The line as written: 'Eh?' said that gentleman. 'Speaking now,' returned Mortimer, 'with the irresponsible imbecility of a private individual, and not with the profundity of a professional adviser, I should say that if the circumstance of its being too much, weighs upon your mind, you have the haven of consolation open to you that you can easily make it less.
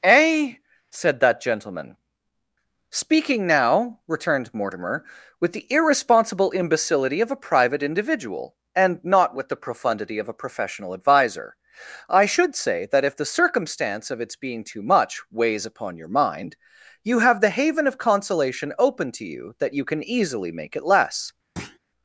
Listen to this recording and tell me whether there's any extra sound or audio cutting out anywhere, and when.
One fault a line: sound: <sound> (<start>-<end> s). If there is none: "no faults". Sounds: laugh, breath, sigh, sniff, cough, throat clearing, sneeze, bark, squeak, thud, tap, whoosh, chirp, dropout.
sound: thud (21.6-21.8 s)